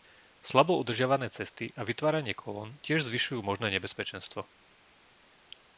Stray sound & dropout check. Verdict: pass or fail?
pass